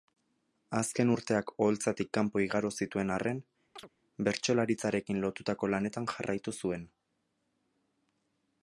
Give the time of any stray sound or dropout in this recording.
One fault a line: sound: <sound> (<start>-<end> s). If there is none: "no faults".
sound: chirp (3.8-3.9 s)